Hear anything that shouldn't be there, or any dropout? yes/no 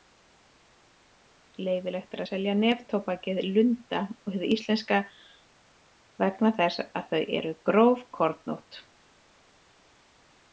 no